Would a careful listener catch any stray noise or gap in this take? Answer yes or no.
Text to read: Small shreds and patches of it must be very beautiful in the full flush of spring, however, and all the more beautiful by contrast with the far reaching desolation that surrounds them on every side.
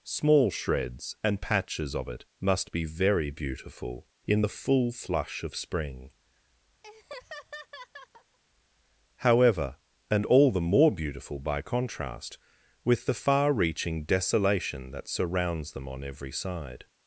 yes